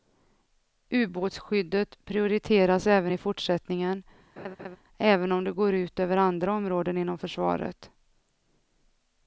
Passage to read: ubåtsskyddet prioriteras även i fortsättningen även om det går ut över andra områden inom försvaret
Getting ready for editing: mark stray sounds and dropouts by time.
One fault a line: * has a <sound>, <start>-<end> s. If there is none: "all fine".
* has a laugh, 4.4-4.8 s